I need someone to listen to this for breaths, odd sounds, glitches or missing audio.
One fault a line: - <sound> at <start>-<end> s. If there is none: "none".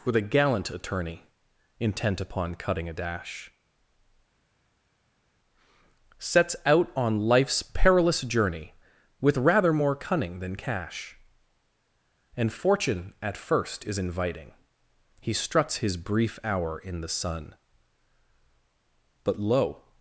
none